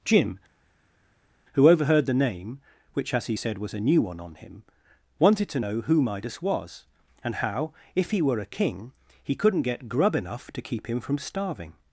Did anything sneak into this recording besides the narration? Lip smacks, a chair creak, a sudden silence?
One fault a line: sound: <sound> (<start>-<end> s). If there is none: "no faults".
no faults